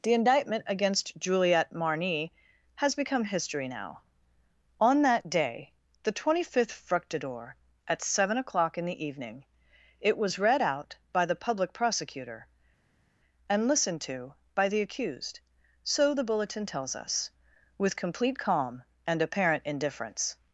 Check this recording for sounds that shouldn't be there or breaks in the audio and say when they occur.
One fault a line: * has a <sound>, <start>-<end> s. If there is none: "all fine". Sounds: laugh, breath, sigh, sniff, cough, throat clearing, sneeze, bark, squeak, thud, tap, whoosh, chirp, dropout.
all fine